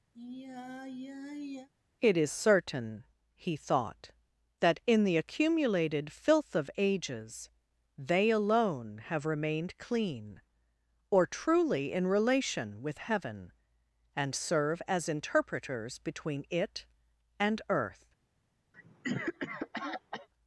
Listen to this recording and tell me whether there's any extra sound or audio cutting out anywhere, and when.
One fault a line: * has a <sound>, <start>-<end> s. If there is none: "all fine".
* has a sigh, 0.1-1.7 s
* has a cough, 18.7-20.3 s